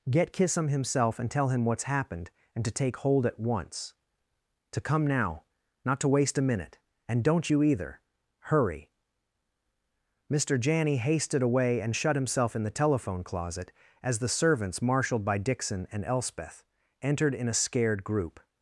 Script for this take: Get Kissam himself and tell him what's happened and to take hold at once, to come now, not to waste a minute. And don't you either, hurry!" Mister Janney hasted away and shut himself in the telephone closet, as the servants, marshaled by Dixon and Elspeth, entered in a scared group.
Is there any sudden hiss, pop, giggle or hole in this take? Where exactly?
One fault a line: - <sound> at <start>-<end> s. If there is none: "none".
none